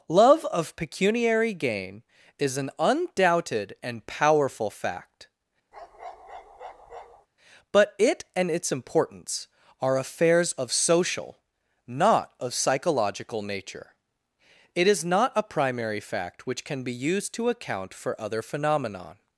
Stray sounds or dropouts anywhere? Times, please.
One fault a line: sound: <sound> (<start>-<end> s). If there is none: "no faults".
sound: bark (5.7-7.3 s)